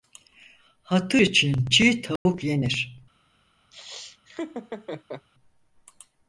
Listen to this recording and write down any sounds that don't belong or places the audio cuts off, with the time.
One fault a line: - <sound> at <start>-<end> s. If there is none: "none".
- dropout at 2.2-2.3 s
- laugh at 3.7-5.3 s